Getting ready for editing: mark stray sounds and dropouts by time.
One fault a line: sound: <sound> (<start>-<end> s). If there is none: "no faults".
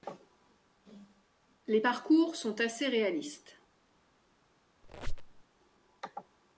sound: squeak (4.8-5.4 s)